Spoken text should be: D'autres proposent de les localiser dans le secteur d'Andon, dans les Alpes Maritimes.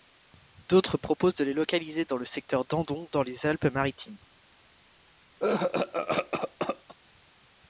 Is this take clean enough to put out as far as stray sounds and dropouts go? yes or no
no